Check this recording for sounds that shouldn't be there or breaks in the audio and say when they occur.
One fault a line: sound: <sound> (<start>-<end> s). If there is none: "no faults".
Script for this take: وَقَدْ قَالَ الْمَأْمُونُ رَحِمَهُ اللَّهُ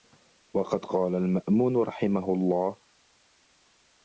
no faults